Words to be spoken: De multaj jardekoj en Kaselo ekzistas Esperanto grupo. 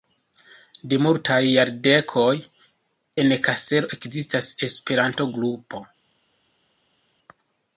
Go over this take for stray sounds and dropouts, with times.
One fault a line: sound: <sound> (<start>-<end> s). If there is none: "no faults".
no faults